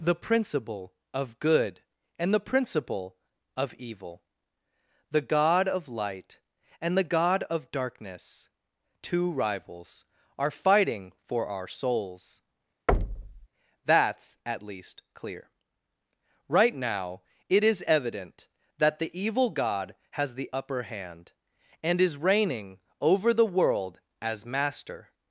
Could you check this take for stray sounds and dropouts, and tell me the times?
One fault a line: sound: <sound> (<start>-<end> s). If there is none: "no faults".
sound: thud (12.9-13.5 s)